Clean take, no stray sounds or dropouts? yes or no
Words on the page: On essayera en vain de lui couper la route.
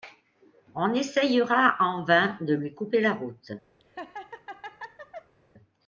no